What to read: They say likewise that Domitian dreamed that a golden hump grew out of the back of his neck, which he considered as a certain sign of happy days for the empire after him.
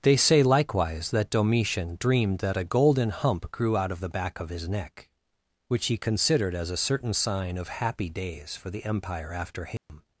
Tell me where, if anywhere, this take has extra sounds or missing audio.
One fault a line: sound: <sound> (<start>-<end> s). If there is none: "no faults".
sound: dropout (9.8-9.9 s)